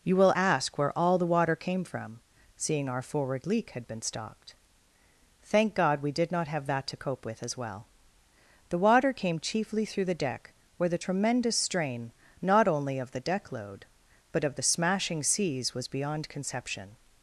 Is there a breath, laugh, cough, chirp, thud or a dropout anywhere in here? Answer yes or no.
no